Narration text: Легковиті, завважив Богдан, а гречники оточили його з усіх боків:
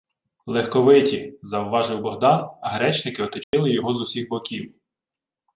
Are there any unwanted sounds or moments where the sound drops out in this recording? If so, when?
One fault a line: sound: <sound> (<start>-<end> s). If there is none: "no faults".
sound: dropout (3.4-3.5 s)